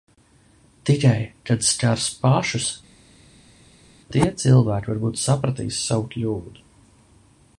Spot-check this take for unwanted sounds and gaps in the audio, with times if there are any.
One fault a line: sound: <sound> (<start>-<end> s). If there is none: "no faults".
no faults